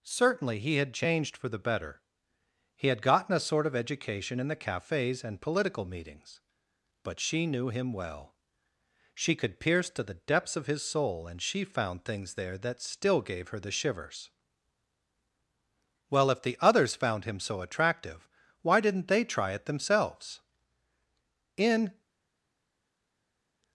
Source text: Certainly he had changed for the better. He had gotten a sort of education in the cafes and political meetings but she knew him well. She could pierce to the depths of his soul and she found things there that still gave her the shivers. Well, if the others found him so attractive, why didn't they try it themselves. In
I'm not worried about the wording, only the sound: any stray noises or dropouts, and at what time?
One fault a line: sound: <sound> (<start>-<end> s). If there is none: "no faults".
no faults